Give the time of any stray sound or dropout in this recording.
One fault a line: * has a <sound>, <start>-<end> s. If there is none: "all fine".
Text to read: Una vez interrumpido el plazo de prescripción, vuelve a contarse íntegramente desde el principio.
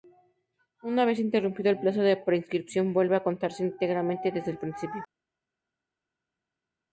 all fine